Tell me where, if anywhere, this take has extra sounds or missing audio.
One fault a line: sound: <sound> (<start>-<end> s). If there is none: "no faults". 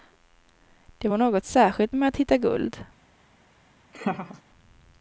sound: laugh (3.9-4.4 s)